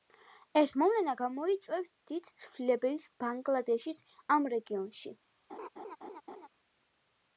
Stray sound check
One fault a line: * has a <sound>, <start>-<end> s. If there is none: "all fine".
* has a laugh, 5.5-6.5 s